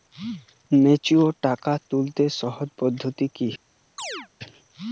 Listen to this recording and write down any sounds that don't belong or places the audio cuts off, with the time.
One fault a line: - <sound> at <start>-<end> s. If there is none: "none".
- chirp at 4.0-4.3 s